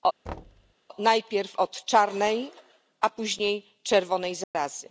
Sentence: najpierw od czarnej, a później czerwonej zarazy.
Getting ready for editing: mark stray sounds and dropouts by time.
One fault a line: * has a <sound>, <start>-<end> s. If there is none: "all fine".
* has a thud, 0.3-0.7 s
* has a dropout, 4.4-4.5 s